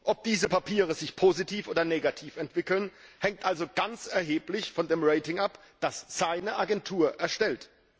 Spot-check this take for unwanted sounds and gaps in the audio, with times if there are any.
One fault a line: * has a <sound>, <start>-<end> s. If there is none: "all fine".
all fine